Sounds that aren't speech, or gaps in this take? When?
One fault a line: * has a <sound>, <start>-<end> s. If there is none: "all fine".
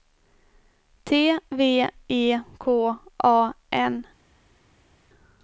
all fine